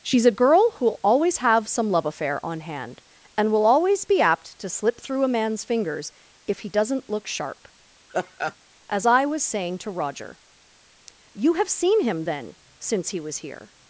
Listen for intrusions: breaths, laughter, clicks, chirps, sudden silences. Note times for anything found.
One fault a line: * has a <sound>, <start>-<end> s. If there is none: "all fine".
* has a laugh, 8.1-8.6 s